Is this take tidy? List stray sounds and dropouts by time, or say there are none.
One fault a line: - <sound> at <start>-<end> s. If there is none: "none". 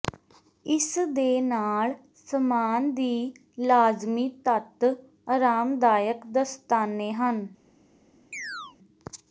- chirp at 8.3-8.8 s